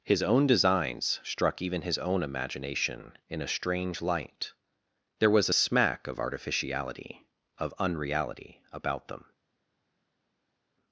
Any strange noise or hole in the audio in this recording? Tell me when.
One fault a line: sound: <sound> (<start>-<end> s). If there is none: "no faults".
no faults